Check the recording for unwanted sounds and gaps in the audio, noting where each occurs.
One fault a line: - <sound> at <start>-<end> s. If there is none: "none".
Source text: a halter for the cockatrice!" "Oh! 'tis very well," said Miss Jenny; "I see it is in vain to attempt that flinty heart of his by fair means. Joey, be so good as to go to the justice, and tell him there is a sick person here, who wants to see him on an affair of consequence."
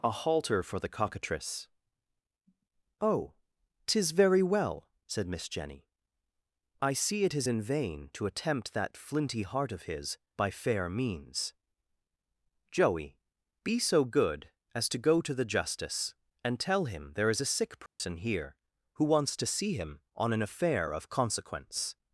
- dropout at 17.9-18.0 s